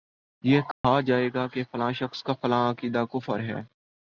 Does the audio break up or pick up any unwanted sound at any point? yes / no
yes